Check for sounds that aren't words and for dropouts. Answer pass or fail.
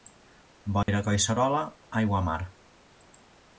fail